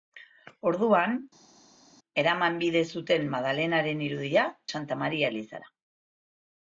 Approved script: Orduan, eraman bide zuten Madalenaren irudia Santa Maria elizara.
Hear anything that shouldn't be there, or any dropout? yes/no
no